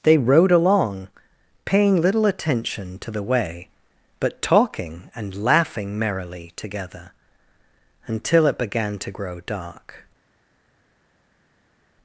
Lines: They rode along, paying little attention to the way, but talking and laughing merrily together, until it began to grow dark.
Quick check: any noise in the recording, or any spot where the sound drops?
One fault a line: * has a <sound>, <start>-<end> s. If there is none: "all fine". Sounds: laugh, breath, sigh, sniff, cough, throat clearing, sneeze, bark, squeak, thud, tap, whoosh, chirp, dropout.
all fine